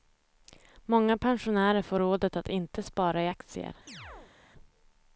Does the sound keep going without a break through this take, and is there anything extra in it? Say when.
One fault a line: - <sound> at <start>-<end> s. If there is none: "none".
- chirp at 3.9-4.3 s